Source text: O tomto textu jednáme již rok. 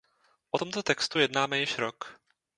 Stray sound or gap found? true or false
false